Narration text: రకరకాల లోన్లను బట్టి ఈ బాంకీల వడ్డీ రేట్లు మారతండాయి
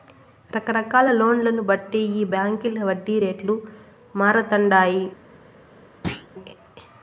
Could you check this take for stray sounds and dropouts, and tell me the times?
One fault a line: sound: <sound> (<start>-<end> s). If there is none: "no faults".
sound: thud (6.0-6.3 s)